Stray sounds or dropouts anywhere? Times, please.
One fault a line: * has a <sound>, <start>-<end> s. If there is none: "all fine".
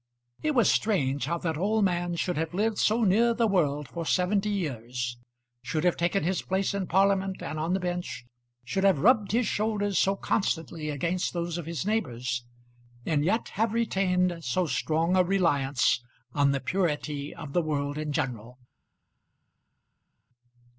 all fine